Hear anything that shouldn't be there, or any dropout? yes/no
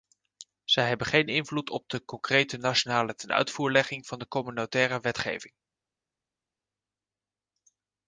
no